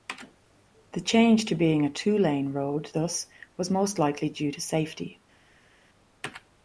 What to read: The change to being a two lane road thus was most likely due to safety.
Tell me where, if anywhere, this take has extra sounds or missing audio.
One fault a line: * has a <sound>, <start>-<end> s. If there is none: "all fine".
all fine